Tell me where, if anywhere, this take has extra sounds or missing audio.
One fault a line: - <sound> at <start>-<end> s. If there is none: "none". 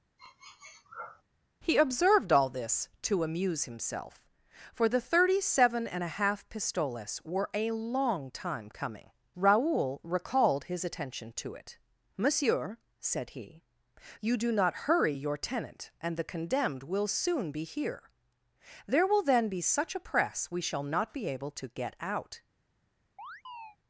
- sniff at 0.2-1.2 s
- chirp at 23.2-23.8 s